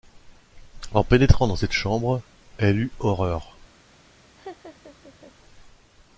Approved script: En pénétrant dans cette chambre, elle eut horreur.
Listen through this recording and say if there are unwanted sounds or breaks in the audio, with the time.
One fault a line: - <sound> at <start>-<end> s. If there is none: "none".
- laugh at 4.4-5.3 s